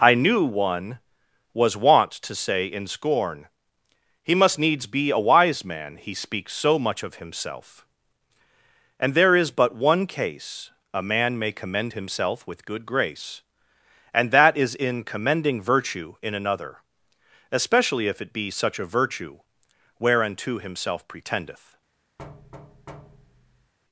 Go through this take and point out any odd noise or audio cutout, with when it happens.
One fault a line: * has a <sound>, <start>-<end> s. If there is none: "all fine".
* has a thud, 22.2-23.7 s